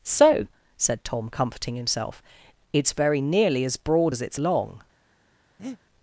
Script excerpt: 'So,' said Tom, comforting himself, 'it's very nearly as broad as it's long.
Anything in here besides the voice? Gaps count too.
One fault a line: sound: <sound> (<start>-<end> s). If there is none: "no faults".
sound: breath (5.6-5.8 s)